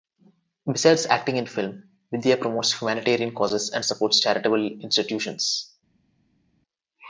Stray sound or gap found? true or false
false